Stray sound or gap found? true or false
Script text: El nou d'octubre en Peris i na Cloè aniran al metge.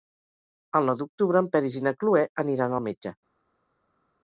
false